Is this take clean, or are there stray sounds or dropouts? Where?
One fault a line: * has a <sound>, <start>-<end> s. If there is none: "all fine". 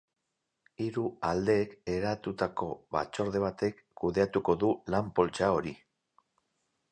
all fine